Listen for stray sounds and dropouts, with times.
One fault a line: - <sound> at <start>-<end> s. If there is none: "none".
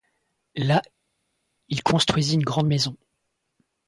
none